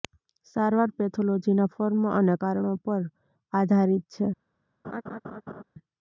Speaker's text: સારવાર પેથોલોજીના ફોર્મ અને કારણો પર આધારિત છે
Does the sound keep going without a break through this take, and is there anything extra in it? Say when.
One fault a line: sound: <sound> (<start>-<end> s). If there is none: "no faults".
sound: laugh (4.8-5.6 s)